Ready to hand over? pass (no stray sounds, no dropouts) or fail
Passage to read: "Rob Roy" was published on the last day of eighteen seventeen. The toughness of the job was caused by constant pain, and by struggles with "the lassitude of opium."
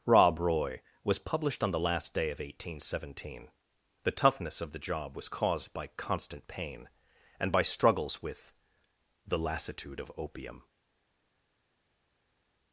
pass